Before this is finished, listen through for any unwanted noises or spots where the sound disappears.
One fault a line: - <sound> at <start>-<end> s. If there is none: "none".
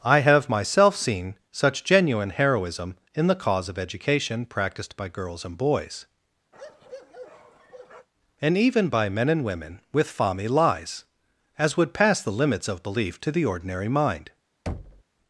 - bark at 6.5-8.1 s
- thud at 14.7-15.0 s